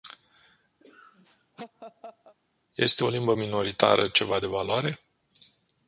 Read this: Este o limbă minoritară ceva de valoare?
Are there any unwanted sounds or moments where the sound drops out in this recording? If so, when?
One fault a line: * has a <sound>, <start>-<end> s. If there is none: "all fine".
* has a laugh, 0.8-2.3 s